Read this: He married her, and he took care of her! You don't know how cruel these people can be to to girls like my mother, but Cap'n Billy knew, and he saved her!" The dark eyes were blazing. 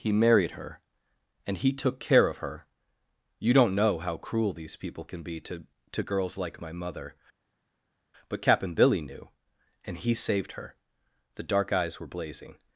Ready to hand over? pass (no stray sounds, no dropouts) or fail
pass